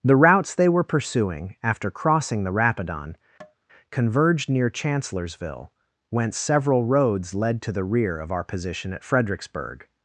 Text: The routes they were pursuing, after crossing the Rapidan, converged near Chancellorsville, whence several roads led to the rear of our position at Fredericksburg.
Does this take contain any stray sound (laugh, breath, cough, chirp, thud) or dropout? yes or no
yes